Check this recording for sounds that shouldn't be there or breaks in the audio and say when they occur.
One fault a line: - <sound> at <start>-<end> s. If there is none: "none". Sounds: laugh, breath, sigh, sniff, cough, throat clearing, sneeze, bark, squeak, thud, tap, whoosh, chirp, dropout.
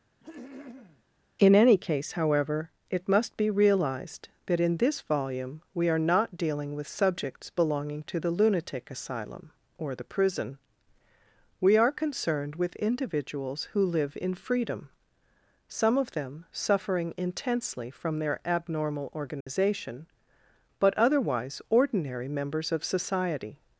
- throat clearing at 0.2-1.0 s
- dropout at 19.4-19.5 s